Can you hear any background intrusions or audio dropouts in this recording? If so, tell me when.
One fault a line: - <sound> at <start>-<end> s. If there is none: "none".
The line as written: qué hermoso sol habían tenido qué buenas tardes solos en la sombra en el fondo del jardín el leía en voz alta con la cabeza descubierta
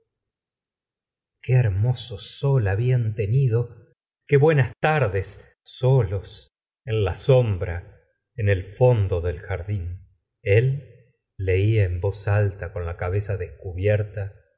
none